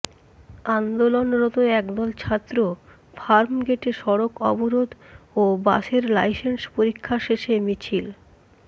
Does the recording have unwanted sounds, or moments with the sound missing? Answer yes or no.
no